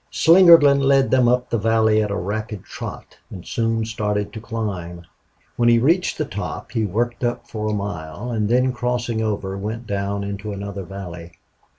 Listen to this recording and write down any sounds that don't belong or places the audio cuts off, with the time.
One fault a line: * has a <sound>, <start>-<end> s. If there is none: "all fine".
all fine